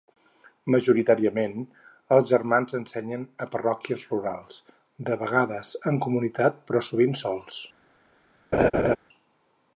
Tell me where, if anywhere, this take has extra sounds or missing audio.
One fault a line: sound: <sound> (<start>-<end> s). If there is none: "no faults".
sound: laugh (8.5-9.0 s)